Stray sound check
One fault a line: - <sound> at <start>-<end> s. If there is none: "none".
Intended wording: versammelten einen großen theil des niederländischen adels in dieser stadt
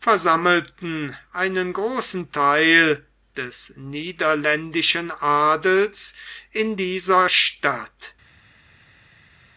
none